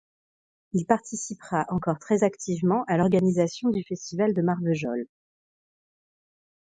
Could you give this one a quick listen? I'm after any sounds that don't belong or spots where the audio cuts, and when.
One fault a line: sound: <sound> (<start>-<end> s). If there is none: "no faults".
no faults